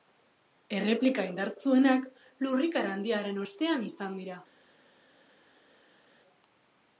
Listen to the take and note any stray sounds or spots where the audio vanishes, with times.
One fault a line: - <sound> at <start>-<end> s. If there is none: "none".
none